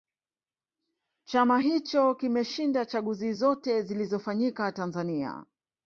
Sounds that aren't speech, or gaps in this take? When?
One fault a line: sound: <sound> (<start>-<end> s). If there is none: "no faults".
no faults